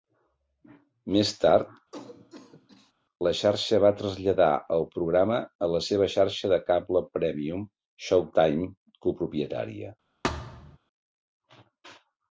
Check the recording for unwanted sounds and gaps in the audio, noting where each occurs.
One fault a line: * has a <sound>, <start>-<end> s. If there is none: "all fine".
* has a cough, 1.9-2.9 s
* has a thud, 10.2-10.8 s